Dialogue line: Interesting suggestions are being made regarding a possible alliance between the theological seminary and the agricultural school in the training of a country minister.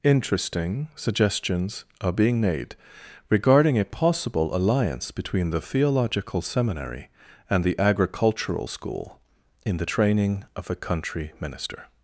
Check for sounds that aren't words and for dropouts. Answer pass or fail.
pass